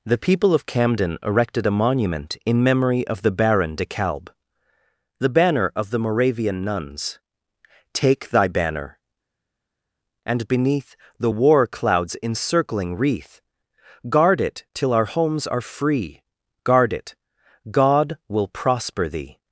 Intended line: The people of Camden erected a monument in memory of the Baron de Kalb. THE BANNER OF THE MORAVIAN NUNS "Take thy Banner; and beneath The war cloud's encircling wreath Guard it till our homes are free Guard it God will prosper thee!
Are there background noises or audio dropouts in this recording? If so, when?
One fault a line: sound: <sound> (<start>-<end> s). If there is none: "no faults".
no faults